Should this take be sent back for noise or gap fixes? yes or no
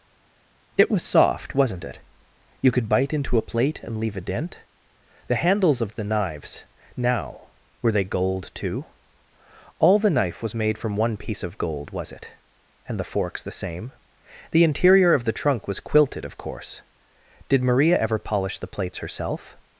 no